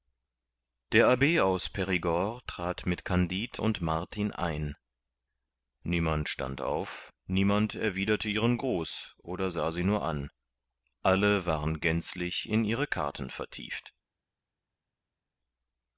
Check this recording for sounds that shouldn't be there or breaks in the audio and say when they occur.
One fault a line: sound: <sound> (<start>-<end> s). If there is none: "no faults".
no faults